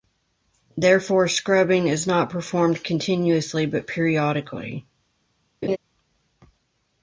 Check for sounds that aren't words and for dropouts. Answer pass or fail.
fail